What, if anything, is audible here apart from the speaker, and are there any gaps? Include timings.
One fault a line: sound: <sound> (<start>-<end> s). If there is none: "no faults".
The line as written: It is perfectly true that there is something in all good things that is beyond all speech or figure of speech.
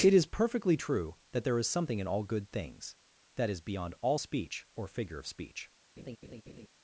sound: laugh (6.0-6.7 s)